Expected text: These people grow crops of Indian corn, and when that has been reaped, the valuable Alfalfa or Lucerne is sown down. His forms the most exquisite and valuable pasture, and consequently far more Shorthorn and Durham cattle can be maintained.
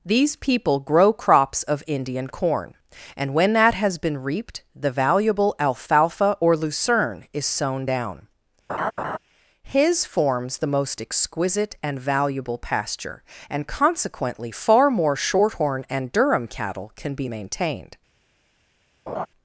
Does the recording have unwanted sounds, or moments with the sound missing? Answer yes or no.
yes